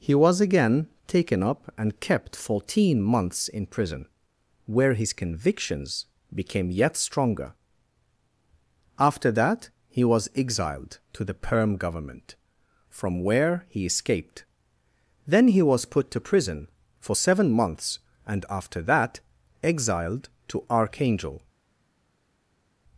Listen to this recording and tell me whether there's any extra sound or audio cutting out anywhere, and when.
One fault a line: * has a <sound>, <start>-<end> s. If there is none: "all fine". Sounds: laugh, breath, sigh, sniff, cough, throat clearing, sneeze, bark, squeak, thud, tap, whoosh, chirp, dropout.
all fine